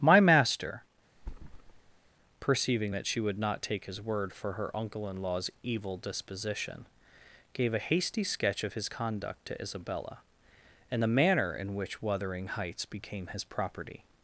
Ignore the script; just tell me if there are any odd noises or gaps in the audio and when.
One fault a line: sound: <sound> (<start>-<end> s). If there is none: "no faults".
sound: thud (1.2-2.1 s)